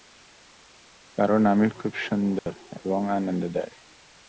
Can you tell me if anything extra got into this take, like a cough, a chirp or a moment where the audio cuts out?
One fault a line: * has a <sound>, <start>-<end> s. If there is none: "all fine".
* has a dropout, 2.4-2.5 s